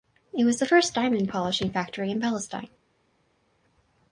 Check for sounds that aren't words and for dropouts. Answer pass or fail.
pass